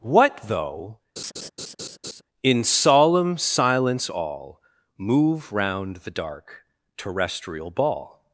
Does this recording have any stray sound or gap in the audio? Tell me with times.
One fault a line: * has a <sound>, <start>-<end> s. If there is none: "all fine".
* has a laugh, 1.2-2.2 s